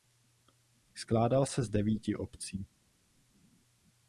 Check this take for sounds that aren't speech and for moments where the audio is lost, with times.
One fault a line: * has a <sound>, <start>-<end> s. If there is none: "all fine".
all fine